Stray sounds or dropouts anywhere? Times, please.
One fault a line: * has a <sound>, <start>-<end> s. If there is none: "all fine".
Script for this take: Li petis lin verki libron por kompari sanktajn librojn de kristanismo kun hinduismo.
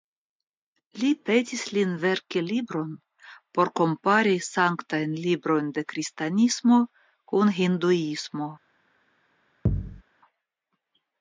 * has a thud, 9.7-10.0 s